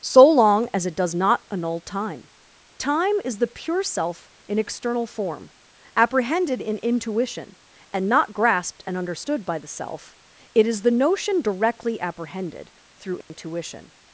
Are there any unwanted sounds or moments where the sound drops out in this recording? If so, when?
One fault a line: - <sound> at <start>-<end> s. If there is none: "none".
- dropout at 13.2-13.3 s